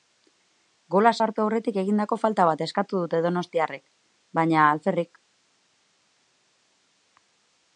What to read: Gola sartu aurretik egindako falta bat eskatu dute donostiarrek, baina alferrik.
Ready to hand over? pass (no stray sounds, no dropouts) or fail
pass